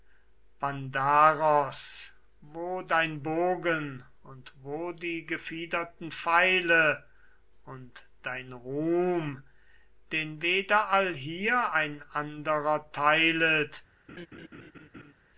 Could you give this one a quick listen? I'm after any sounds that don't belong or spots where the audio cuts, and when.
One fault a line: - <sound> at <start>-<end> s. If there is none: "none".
- laugh at 14.1-15.1 s